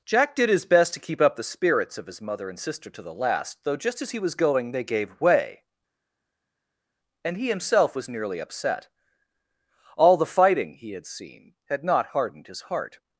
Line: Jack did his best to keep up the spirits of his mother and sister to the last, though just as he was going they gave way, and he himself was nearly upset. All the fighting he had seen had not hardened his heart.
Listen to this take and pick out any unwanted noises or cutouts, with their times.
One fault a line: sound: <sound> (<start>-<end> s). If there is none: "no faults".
no faults